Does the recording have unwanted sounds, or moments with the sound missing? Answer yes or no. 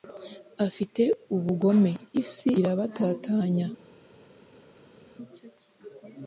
no